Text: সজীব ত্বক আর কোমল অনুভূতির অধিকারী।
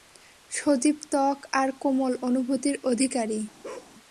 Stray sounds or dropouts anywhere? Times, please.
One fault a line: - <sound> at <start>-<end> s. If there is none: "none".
- bark at 3.6-3.9 s